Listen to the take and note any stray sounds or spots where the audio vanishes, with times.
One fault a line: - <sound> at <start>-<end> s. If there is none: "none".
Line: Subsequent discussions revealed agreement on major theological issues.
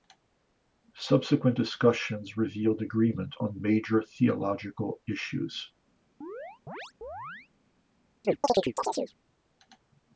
- chirp at 6.2-7.5 s
- chirp at 8.2-9.1 s